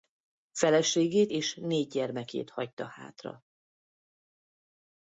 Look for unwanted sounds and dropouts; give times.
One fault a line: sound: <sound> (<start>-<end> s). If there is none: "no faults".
no faults